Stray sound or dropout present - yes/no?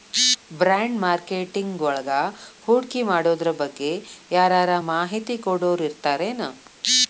no